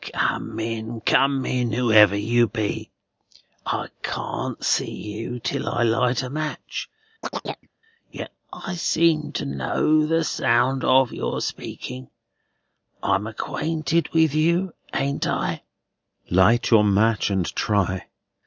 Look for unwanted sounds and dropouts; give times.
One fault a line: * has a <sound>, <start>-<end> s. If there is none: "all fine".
* has a chirp, 7.2-7.7 s